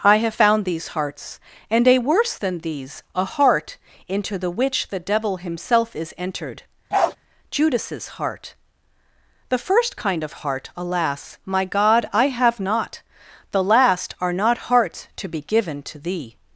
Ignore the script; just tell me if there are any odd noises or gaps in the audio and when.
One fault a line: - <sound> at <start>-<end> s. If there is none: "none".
- bark at 6.9-7.2 s